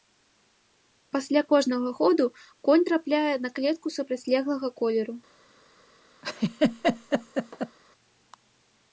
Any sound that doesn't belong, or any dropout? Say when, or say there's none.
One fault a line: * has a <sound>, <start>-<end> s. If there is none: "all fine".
* has a laugh, 6.2-7.8 s